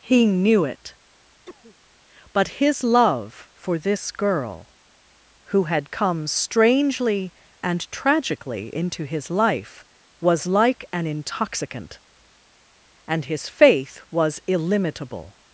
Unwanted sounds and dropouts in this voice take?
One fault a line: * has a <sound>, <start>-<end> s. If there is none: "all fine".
* has a cough, 1.5-1.8 s